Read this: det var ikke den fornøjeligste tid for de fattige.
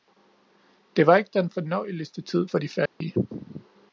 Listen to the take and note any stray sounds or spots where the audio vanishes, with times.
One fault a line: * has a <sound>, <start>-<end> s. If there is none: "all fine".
* has a dropout, 2.9-3.0 s